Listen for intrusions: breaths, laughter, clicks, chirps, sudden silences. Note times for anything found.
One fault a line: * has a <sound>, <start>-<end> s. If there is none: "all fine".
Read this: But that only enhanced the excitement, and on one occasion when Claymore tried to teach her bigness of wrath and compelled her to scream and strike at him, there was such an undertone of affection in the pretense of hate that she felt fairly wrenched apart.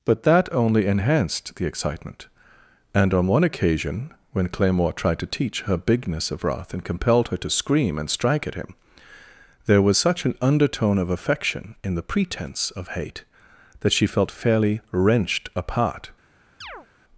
* has a chirp, 16.6-16.9 s